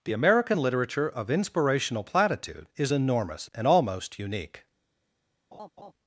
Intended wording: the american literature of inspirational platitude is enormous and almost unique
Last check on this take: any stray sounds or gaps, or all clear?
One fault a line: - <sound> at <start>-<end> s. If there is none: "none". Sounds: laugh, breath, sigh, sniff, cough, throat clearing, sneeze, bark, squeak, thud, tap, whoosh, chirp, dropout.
- laugh at 5.5-5.9 s